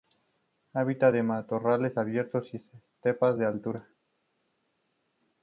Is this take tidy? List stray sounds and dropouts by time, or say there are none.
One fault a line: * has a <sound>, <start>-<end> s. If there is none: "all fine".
all fine